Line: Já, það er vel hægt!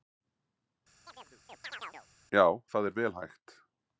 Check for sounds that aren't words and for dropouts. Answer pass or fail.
fail